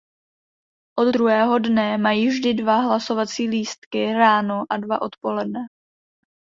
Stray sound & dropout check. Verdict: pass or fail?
pass